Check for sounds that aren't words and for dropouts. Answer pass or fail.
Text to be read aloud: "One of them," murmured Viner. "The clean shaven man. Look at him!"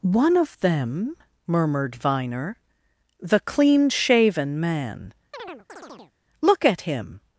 fail